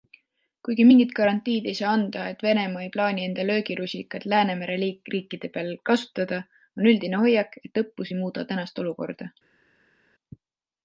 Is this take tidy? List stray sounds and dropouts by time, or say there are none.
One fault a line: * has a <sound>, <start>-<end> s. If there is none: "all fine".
all fine